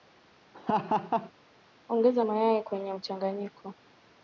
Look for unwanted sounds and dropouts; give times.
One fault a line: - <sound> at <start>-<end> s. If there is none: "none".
- laugh at 0.5-1.3 s